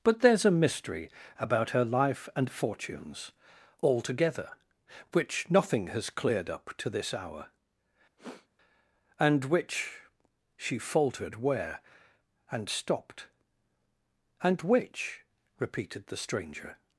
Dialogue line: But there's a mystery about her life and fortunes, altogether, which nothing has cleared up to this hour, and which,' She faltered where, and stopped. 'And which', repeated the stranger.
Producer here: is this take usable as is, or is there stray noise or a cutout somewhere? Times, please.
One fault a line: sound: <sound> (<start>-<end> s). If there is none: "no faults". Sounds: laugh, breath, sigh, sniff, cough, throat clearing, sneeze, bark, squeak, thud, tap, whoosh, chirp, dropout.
sound: sniff (8.2-8.5 s)